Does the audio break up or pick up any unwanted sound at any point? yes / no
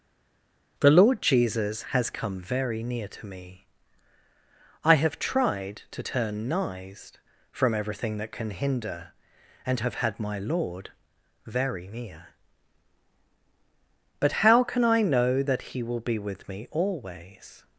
no